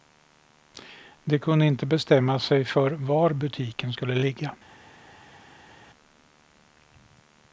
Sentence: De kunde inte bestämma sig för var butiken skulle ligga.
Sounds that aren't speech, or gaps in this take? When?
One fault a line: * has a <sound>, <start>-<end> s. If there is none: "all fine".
all fine